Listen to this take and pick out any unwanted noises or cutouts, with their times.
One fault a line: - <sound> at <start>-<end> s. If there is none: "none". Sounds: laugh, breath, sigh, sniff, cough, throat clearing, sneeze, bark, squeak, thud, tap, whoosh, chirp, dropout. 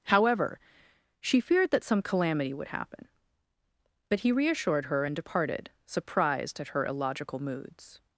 none